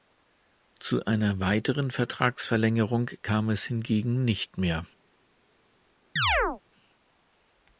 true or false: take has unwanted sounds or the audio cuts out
true